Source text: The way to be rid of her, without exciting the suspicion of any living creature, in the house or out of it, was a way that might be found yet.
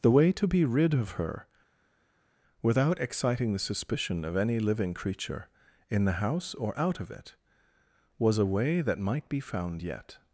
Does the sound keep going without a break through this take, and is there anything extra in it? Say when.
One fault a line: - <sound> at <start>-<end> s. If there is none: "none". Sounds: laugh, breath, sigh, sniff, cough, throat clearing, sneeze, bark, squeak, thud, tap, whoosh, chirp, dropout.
none